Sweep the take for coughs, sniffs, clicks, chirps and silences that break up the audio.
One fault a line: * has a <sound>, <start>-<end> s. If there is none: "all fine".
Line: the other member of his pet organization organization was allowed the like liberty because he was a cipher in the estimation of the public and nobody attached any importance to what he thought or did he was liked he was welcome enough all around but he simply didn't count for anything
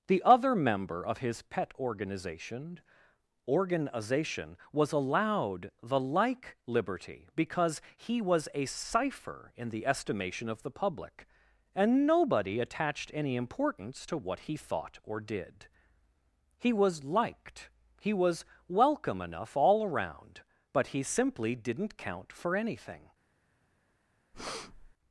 * has a breath, 24.3-24.9 s